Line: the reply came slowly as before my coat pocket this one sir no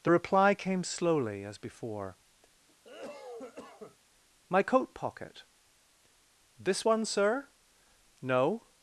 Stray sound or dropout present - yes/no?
yes